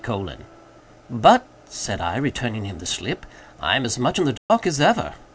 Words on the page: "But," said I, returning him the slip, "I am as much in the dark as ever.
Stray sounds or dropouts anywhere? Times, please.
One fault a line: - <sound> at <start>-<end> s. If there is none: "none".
- dropout at 4.4-4.5 s